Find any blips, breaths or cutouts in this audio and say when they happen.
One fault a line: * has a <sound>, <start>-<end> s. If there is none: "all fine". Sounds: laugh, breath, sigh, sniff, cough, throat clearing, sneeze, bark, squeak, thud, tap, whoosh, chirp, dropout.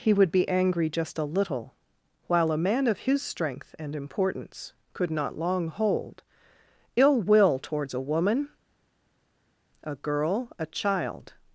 all fine